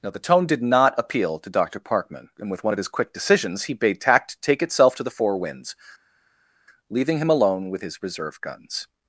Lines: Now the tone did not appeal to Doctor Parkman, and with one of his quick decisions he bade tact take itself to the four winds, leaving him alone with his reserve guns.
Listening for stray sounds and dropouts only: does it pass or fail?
pass